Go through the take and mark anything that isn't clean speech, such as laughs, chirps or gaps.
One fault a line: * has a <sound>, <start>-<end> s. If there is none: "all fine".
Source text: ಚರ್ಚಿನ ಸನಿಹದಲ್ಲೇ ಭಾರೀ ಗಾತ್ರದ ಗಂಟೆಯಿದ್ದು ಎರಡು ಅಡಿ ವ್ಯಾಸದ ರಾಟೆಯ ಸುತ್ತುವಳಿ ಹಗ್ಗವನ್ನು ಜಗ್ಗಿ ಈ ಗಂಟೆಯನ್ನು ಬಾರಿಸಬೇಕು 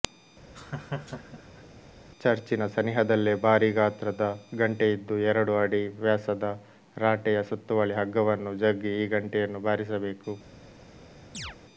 * has a laugh, 0.5-1.6 s
* has a chirp, 11.3-11.6 s